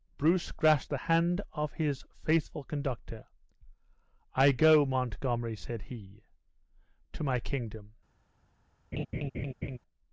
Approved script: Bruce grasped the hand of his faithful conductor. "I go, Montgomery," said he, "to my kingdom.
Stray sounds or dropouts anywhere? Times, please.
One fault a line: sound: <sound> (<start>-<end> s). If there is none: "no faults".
sound: laugh (8.9-9.8 s)